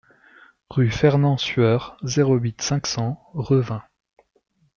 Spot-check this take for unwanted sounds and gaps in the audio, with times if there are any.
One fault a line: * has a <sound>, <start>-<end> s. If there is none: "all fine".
all fine